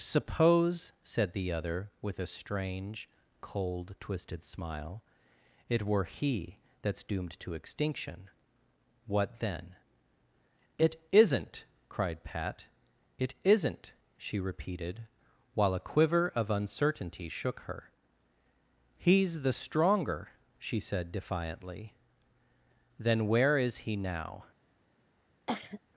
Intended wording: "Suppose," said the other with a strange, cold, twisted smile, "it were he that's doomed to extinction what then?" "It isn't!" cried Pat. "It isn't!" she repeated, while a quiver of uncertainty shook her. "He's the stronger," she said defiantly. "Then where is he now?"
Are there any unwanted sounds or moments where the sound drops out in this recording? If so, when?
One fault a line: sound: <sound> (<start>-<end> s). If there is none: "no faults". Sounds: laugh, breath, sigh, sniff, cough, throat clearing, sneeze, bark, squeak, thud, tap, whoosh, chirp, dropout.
sound: cough (25.5-25.8 s)